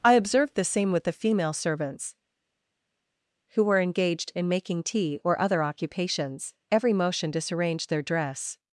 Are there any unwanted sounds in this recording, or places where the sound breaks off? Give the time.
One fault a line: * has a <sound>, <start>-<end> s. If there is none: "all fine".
all fine